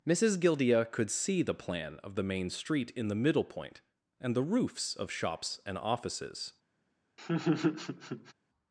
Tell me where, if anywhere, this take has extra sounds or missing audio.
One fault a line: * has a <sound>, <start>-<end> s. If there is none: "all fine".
* has a laugh, 7.2-8.3 s